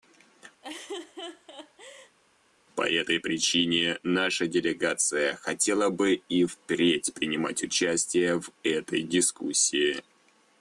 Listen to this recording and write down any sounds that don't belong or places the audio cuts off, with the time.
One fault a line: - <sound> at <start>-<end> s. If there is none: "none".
- laugh at 0.6-2.2 s